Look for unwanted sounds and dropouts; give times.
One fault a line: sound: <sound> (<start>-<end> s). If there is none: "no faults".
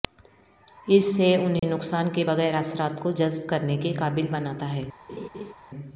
sound: dropout (1.6-1.6 s)
sound: laugh (5.1-5.5 s)